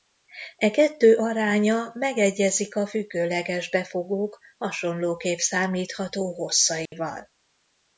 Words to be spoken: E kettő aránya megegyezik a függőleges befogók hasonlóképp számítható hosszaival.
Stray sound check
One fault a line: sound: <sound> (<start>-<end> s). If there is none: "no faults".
sound: dropout (6.9-6.9 s)